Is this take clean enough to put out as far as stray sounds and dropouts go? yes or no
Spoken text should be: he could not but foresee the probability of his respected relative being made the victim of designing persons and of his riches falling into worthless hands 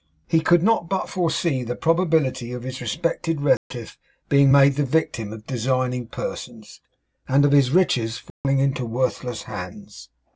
no